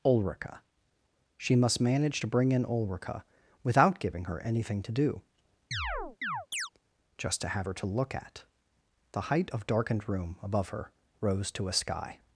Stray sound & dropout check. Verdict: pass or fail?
fail